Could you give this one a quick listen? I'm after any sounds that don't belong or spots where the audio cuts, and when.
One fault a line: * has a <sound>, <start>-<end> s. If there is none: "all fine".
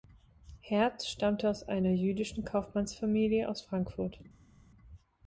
all fine